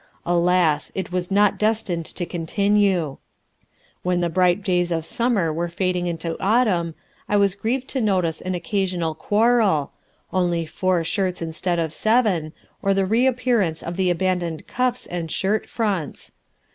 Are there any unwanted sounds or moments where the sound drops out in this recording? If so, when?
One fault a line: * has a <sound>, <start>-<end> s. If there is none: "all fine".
all fine